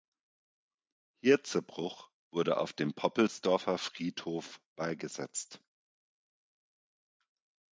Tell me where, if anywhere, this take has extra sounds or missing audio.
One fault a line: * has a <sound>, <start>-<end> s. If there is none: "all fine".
all fine